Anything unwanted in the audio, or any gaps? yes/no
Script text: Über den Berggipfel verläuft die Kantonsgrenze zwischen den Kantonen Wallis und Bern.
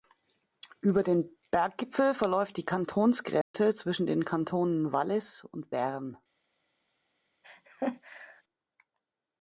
yes